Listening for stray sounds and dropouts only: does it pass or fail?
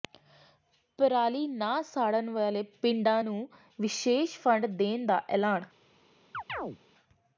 fail